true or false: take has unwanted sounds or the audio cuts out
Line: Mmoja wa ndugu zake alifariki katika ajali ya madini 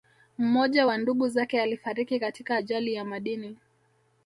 false